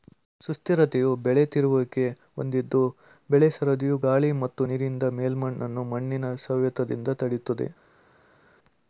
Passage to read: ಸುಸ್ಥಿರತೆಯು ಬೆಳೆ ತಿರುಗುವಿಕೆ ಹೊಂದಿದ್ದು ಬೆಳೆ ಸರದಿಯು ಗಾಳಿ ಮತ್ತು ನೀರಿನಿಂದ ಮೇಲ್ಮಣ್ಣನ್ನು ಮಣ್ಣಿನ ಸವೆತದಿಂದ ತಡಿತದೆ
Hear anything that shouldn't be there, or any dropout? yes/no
no